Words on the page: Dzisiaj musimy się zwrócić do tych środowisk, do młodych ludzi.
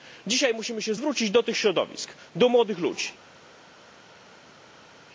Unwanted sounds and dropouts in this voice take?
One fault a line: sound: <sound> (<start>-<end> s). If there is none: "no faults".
no faults